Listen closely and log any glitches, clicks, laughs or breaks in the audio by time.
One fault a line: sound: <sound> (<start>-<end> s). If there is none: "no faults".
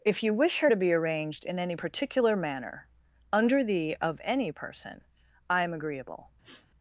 sound: sniff (6.4-6.7 s)